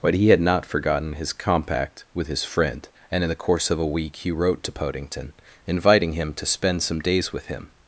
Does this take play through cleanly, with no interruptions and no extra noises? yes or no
yes